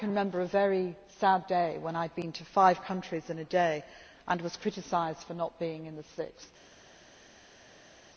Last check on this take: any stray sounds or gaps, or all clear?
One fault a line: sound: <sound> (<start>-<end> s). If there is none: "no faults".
no faults